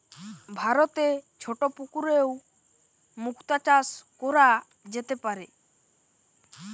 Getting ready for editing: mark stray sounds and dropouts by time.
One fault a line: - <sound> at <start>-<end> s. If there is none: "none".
none